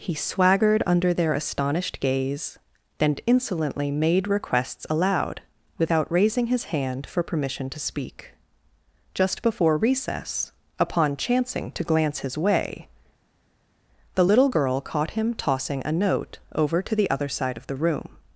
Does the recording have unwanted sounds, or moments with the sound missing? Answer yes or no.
no